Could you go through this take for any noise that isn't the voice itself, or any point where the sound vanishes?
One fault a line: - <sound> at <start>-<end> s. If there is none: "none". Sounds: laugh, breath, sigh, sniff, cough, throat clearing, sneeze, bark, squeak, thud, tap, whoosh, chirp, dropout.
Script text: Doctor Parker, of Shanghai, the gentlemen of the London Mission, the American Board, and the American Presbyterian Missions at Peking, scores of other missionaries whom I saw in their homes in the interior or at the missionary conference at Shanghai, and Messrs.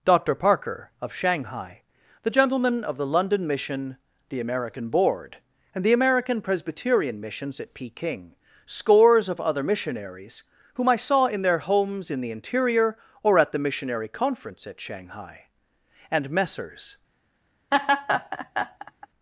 - laugh at 17.7-19.1 s